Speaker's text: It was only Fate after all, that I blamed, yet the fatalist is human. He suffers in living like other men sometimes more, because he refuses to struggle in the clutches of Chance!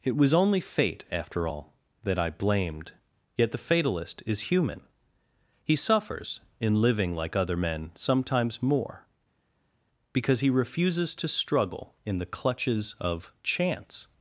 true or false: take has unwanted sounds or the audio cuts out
false